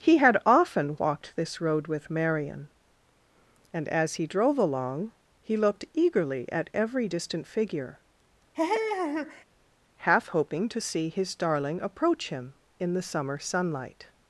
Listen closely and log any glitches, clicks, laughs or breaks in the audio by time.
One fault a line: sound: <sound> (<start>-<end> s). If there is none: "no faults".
sound: laugh (8.5-9.4 s)